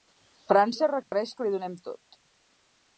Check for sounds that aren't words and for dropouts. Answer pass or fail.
fail